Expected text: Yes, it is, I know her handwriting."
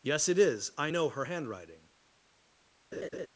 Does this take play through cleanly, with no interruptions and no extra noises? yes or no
no